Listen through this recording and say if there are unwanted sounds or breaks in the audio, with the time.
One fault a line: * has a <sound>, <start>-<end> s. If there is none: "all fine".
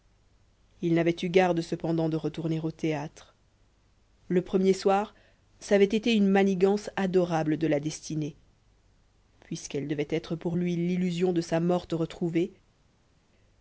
all fine